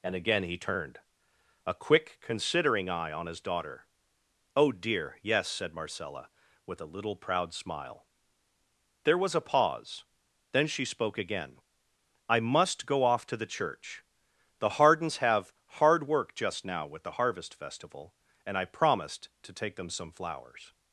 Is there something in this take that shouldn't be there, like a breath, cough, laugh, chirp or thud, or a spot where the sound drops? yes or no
no